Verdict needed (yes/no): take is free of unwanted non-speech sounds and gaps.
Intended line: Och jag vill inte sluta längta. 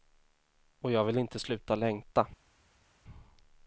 yes